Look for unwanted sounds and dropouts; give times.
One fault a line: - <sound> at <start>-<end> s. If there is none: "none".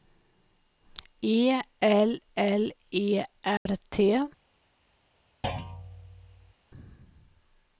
- dropout at 3.6-3.7 s
- thud at 5.4-6.5 s